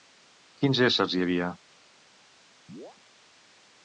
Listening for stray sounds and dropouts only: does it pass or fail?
fail